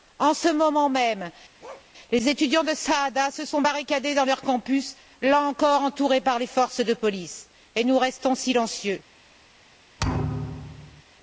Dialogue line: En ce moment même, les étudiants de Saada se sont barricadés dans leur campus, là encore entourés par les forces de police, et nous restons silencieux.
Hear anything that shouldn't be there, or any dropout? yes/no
yes